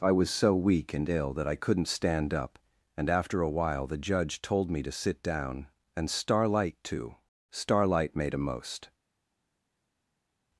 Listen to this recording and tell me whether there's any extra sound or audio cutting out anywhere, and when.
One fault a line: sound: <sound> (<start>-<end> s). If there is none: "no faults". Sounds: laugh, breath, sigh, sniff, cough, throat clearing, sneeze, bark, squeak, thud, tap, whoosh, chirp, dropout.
no faults